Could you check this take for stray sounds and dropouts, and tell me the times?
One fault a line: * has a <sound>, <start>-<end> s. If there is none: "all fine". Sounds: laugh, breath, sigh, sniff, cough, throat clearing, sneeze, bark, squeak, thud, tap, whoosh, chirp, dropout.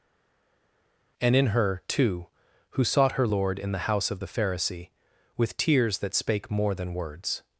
all fine